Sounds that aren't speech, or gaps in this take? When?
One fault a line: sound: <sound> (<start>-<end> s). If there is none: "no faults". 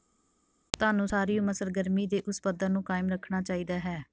no faults